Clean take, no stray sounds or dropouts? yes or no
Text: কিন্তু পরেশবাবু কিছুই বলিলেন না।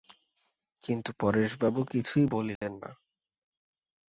no